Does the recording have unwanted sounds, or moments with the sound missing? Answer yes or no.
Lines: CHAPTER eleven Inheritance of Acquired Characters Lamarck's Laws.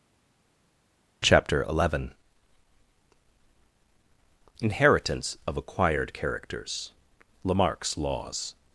no